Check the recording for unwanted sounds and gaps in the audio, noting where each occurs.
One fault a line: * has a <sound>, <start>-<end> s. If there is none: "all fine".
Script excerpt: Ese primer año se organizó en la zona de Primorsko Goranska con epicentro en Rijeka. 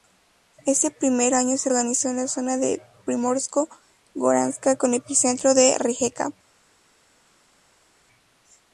all fine